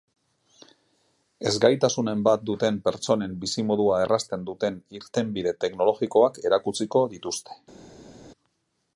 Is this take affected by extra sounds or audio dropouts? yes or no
no